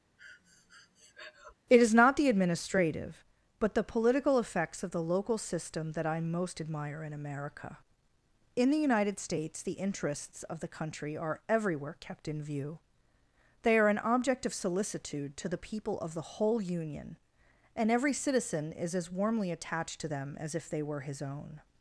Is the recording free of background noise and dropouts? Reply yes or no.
no